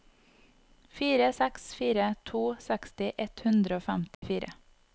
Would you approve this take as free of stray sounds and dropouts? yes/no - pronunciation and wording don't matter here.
no